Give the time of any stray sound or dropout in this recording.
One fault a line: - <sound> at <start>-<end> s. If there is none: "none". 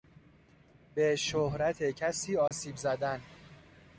- dropout at 2.5-2.5 s